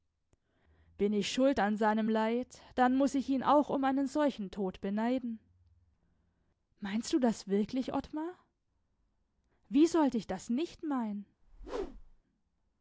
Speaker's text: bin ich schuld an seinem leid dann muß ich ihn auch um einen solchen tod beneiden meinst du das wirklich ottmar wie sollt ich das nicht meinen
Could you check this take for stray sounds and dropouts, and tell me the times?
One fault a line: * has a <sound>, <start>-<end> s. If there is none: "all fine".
* has a whoosh, 11.4-12.2 s